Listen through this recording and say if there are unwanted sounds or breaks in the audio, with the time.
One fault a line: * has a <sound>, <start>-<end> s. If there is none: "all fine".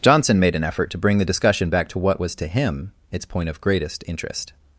all fine